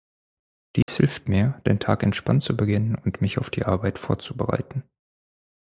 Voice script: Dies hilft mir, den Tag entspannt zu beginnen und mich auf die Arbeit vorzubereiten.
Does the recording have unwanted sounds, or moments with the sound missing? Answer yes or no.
yes